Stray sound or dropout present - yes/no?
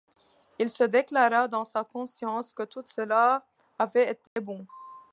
yes